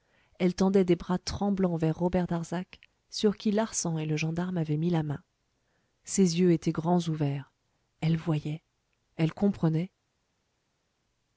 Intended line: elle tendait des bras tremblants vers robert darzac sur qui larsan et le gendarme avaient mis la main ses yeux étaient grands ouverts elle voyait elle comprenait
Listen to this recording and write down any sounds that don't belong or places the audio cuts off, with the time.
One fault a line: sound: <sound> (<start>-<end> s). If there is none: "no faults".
no faults